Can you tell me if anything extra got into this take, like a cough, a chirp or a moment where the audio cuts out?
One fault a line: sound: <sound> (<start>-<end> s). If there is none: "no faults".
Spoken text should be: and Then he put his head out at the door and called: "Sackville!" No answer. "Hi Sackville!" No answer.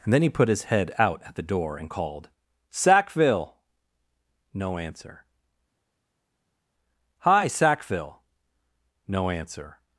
no faults